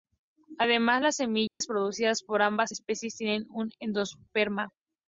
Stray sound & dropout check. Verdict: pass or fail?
fail